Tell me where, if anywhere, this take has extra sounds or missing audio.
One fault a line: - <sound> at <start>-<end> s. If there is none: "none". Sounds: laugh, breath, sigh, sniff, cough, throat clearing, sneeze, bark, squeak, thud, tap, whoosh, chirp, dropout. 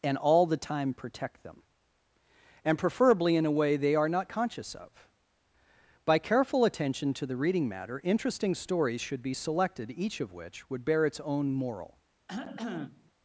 - cough at 12.3-13.1 s